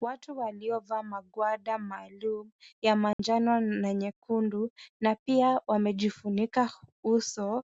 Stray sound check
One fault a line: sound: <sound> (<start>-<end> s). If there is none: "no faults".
sound: dropout (3.1-3.2 s)